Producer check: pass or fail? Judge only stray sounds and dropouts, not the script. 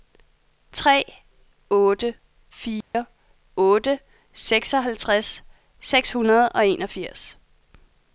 fail